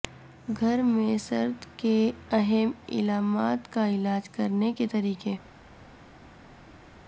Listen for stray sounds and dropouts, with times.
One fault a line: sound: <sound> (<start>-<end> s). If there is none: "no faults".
no faults